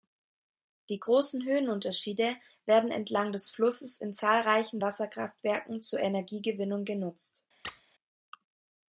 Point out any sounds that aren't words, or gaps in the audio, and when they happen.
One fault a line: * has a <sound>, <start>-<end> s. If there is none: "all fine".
* has a squeak, 7.6-7.8 s